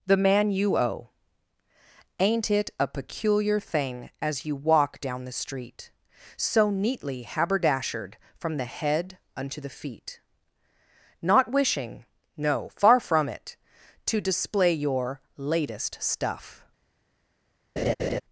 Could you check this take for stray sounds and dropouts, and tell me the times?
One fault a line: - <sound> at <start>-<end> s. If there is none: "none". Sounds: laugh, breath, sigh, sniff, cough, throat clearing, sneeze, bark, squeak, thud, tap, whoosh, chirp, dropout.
- laugh at 17.8-18.2 s